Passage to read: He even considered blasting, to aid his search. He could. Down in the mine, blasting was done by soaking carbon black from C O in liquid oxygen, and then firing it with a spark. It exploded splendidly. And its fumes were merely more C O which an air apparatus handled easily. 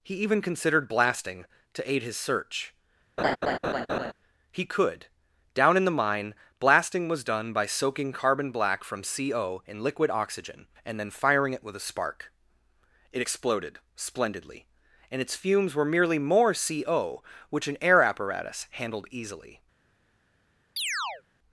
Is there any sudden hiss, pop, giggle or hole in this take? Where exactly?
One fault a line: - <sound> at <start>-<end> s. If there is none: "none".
- laugh at 3.2-4.1 s
- chirp at 20.8-21.2 s